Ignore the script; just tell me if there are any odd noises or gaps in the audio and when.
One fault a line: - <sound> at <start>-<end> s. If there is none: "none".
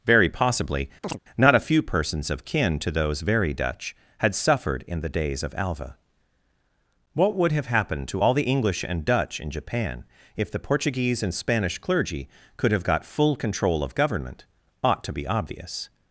- chirp at 1.0-1.2 s